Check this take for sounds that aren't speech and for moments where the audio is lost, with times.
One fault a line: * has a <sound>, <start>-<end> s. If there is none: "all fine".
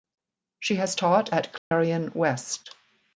* has a dropout, 1.6-1.7 s